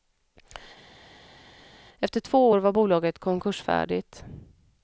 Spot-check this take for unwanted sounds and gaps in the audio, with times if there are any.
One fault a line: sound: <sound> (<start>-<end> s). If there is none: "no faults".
no faults